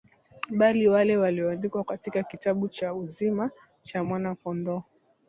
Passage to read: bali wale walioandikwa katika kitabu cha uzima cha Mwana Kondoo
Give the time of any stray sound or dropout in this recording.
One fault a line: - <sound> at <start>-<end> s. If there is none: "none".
none